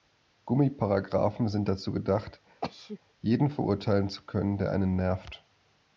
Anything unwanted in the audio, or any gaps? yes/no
yes